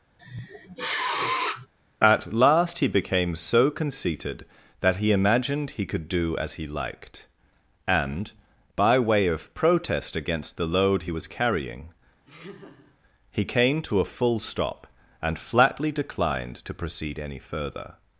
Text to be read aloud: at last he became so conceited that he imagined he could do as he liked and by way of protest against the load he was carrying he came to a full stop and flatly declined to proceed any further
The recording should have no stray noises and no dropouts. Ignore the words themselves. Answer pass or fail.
fail